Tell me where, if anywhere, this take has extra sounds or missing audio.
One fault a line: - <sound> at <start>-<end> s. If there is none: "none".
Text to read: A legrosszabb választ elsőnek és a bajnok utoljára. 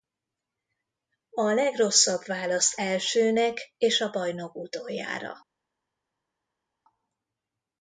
none